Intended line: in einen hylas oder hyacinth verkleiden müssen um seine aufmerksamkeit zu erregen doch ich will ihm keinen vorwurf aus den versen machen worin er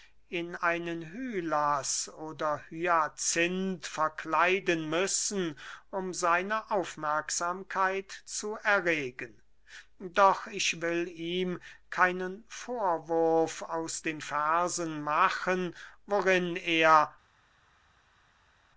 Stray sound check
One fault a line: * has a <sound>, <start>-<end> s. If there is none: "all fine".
all fine